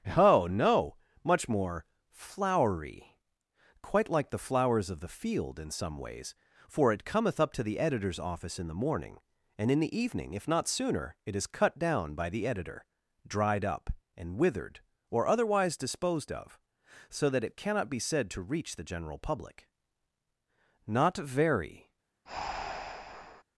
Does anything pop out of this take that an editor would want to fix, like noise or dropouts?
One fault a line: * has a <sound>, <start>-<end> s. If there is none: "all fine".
* has a breath, 22.3-23.4 s